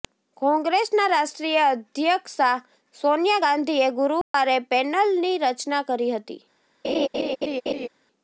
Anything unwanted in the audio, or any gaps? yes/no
yes